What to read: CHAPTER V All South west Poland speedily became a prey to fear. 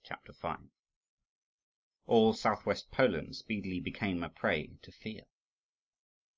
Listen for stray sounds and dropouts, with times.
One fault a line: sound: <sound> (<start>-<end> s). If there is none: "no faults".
no faults